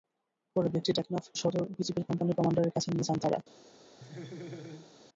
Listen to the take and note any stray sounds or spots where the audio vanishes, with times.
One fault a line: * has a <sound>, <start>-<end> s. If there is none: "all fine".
* has a laugh, 4.0-4.9 s